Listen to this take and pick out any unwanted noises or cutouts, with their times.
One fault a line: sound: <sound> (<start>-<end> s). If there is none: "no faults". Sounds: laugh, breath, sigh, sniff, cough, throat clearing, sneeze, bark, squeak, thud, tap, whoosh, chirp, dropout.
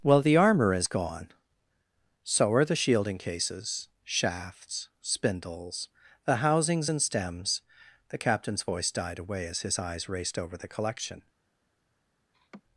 sound: laugh (12.3-12.6 s)